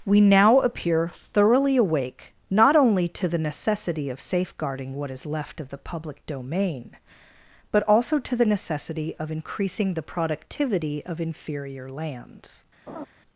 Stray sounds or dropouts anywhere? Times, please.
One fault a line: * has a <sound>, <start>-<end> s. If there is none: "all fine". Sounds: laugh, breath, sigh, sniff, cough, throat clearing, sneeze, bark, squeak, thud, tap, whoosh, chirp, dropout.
* has a laugh, 12.9-13.1 s